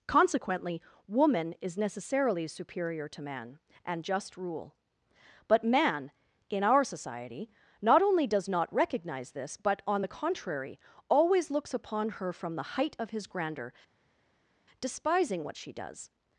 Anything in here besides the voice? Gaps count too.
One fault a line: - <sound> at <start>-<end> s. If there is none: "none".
none